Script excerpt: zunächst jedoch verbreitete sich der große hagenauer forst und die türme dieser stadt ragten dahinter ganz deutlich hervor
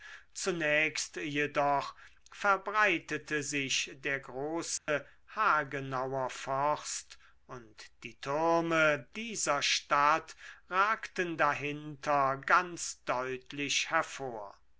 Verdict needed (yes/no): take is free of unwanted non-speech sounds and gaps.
no